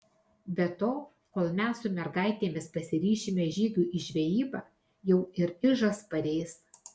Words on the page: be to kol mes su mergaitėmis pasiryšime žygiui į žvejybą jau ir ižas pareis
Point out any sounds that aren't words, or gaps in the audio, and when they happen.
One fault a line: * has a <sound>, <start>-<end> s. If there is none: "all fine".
all fine